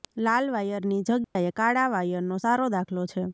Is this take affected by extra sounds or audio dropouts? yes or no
yes